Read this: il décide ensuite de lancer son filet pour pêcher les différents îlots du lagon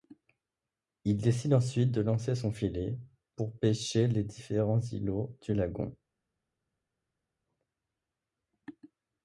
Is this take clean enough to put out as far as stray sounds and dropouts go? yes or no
yes